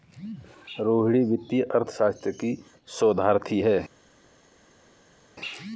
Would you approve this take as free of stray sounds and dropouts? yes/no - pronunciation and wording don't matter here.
yes